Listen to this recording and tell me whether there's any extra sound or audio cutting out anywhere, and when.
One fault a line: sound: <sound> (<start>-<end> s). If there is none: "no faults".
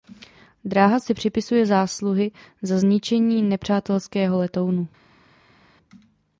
no faults